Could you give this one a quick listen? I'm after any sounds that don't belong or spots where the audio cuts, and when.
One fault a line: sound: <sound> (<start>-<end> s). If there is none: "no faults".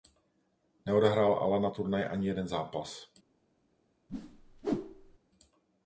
sound: whoosh (4.1-5.2 s)